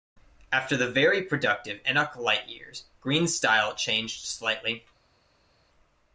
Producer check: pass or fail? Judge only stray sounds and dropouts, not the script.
pass